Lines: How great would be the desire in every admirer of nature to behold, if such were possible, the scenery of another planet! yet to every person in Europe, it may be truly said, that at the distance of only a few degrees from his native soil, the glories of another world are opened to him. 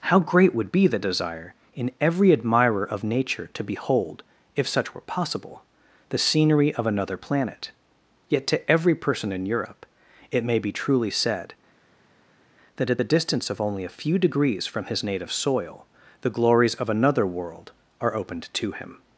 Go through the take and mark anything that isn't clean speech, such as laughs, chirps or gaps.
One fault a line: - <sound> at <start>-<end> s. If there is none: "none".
none